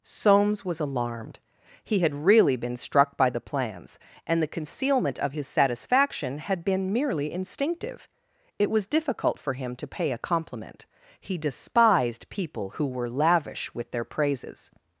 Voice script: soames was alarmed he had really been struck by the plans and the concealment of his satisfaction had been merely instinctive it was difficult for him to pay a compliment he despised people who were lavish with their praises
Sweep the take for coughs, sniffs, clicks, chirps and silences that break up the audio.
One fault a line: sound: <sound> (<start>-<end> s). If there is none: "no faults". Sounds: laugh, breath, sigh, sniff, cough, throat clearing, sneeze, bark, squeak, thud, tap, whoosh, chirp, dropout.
no faults